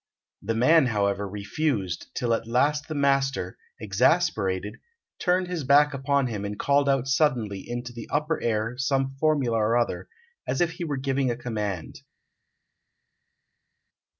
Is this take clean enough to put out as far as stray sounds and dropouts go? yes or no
yes